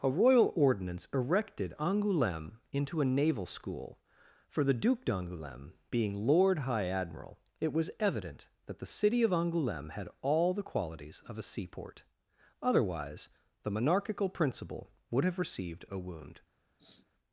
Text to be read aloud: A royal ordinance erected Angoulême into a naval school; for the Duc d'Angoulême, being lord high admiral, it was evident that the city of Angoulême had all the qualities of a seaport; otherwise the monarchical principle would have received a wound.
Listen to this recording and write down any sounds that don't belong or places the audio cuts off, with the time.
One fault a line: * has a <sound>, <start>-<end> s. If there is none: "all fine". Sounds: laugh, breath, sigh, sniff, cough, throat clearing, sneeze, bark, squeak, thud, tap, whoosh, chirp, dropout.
* has a sniff, 16.8-17.1 s